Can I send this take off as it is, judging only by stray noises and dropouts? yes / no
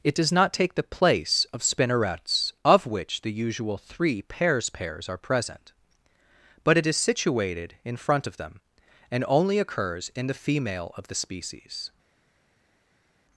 yes